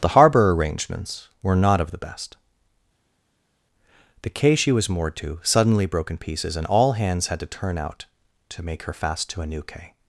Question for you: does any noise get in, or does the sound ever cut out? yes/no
no